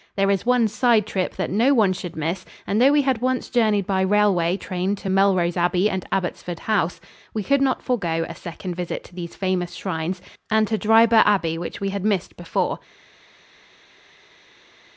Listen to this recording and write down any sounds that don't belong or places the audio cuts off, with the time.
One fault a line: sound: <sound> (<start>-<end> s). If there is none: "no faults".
no faults